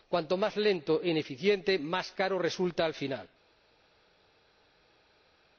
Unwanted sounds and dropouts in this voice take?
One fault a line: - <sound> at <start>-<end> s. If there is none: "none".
none